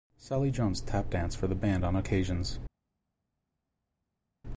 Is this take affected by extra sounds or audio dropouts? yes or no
no